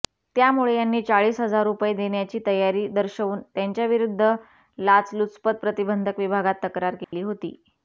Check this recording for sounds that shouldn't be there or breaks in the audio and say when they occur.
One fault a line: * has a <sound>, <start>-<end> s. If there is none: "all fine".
* has a dropout, 7.0-7.1 s